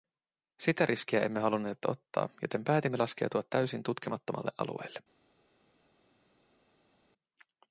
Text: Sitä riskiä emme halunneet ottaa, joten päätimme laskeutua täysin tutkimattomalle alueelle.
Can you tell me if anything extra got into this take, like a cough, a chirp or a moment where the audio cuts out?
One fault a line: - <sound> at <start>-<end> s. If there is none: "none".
none